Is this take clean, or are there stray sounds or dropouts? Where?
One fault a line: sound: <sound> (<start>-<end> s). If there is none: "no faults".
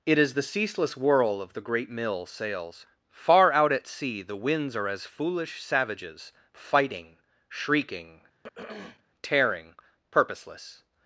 sound: throat clearing (8.4-9.0 s)